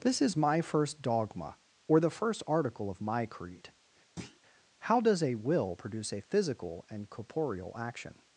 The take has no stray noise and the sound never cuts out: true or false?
false